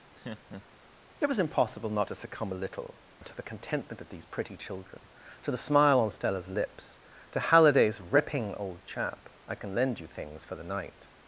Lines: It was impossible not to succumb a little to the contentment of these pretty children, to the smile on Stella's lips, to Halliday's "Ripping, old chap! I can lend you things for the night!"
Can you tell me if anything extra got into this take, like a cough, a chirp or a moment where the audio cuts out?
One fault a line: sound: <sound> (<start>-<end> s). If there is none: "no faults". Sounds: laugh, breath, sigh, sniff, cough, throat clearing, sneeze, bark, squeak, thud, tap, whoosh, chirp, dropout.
sound: laugh (0.1-0.8 s)